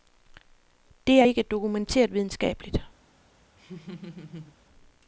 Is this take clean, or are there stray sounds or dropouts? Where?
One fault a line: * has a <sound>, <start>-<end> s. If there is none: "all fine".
* has a laugh, 3.6-4.6 s